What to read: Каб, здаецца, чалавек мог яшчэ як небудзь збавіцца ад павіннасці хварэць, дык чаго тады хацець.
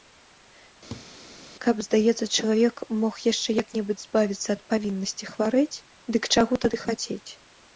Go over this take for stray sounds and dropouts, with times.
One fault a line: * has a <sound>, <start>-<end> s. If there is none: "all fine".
* has a laugh, 0.9-1.1 s